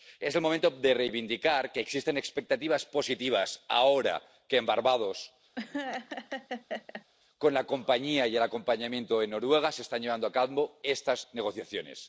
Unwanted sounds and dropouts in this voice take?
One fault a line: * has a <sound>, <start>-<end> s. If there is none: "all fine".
* has a laugh, 5.6-7.1 s